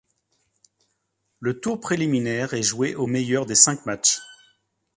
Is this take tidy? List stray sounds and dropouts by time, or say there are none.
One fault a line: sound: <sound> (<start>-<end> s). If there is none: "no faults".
no faults